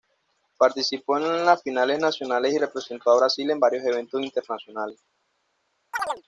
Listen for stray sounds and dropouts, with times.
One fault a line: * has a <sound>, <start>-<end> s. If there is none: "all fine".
* has a chirp, 5.9-6.2 s